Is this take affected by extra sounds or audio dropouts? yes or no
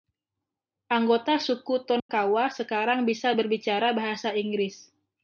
yes